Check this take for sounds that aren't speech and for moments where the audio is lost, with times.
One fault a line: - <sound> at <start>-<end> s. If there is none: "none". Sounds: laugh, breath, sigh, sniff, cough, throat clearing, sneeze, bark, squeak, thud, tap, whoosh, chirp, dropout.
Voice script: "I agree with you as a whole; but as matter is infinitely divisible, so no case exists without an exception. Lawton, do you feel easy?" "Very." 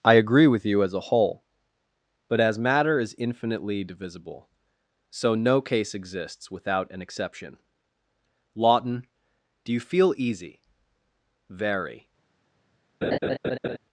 - laugh at 13.0-13.8 s